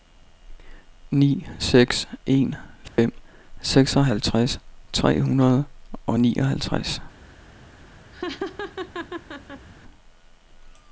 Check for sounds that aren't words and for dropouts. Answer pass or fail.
fail